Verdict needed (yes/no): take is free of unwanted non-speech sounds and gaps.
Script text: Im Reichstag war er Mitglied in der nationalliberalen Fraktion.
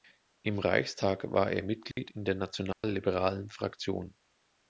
no